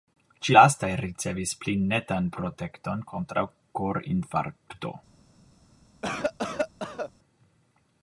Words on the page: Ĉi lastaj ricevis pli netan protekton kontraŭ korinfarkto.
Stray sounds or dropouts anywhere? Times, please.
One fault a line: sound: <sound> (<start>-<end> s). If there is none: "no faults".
sound: cough (6.0-7.1 s)